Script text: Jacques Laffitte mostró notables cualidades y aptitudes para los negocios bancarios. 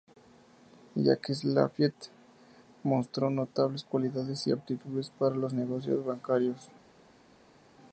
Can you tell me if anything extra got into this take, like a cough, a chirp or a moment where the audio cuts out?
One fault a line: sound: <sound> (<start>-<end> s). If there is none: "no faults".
no faults